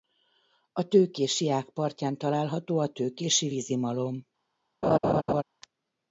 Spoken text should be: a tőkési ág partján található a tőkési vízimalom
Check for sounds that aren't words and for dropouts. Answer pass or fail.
fail